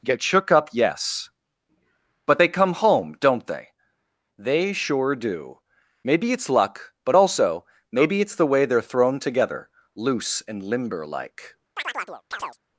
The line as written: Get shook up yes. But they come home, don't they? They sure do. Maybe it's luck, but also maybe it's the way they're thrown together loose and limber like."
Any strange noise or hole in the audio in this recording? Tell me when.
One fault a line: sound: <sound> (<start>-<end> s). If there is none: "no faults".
sound: chirp (11.8-12.6 s)